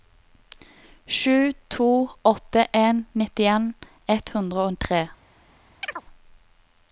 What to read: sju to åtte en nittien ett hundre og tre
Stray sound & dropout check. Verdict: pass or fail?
fail